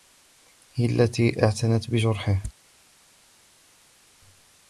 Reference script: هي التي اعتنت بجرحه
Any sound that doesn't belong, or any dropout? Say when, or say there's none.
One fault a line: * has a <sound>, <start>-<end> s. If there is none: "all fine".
all fine